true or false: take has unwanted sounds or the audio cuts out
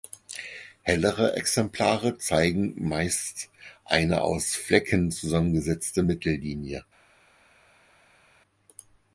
false